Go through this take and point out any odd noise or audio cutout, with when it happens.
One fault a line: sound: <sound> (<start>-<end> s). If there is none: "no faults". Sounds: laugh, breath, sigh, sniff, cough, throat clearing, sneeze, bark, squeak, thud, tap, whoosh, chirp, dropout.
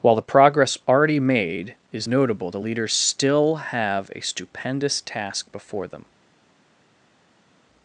no faults